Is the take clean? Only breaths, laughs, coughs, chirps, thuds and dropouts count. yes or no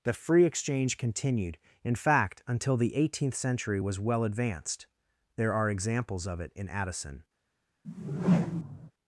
no